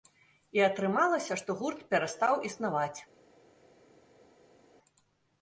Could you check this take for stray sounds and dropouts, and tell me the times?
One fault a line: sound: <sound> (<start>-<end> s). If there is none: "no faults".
no faults